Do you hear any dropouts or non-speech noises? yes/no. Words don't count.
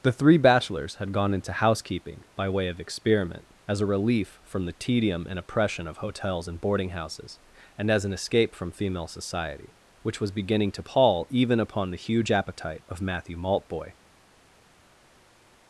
no